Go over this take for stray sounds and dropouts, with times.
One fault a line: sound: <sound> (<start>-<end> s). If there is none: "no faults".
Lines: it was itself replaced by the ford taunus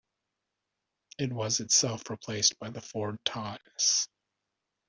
no faults